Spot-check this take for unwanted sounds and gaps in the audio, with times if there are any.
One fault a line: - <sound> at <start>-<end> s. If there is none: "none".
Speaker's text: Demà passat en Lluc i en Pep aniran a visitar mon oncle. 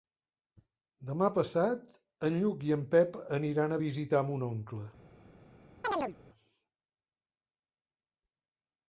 - chirp at 5.8-6.2 s